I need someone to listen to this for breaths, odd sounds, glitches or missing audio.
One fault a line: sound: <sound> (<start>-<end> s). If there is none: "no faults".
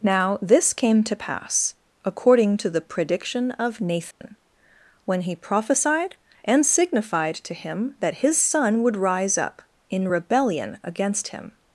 sound: dropout (4.1-4.2 s)